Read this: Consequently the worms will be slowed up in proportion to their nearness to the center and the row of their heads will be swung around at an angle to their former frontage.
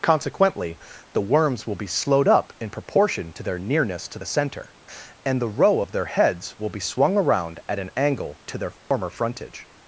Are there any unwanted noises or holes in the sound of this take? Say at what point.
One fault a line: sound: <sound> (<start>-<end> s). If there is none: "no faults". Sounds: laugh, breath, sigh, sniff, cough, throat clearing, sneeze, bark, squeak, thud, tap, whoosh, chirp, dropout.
sound: dropout (8.8-8.9 s)